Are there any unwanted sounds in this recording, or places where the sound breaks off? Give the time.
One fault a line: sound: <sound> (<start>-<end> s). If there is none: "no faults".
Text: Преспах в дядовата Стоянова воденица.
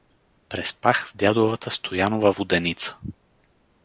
no faults